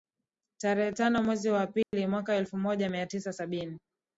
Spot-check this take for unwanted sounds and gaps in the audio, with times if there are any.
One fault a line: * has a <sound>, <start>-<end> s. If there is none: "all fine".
* has a dropout, 1.8-1.9 s